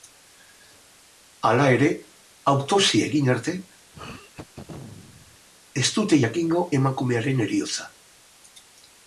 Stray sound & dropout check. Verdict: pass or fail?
fail